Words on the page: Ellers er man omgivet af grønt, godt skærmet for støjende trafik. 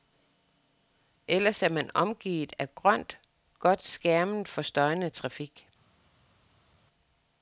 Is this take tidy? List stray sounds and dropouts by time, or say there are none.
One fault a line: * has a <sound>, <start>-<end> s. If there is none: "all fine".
all fine